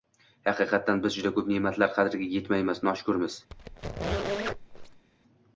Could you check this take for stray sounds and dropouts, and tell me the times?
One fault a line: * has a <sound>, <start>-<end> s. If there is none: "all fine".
* has a squeak, 3.5-5.1 s